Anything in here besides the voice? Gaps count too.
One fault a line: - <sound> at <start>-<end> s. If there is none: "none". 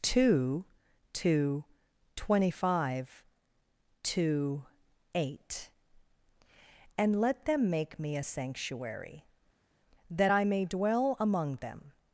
none